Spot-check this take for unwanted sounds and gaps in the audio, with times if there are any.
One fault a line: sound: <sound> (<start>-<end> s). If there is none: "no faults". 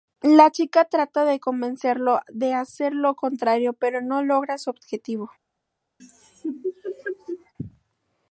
sound: laugh (6.0-7.5 s)